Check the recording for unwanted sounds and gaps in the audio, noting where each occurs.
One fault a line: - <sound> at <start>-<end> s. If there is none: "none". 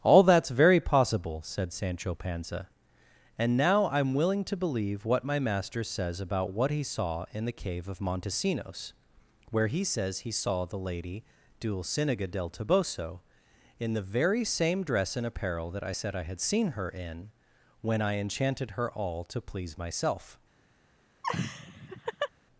- laugh at 21.2-22.3 s